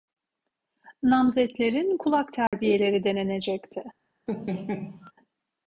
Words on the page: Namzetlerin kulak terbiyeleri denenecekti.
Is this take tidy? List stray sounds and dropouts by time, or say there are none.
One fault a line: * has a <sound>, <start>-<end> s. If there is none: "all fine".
* has a dropout, 2.5-2.5 s
* has a laugh, 4.3-5.1 s